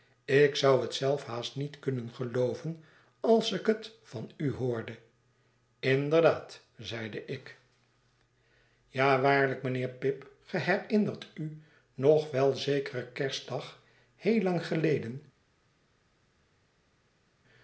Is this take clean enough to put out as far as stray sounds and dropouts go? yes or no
yes